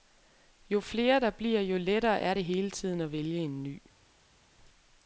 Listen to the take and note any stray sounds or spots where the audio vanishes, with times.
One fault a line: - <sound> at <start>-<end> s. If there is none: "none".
none